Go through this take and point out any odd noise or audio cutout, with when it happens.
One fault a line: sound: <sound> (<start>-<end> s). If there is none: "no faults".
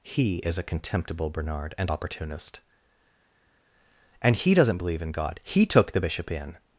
no faults